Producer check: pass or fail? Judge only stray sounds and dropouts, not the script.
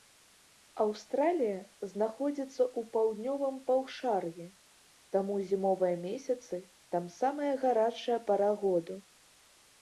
pass